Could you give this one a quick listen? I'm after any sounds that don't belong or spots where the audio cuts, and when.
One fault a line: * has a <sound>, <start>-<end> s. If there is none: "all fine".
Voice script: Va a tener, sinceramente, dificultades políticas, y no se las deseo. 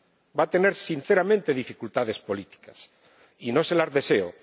all fine